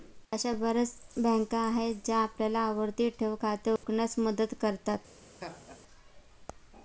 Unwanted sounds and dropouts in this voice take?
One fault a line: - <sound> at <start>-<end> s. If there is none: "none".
- dropout at 3.8-3.8 s
- laugh at 5.4-5.8 s